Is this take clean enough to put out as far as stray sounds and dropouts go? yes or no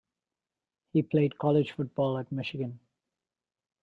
yes